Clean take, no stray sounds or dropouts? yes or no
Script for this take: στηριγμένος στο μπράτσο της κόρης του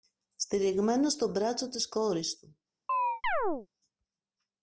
no